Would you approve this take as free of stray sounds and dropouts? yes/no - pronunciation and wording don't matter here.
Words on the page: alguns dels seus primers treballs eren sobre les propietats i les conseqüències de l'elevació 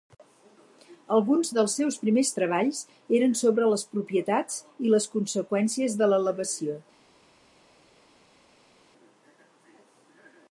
yes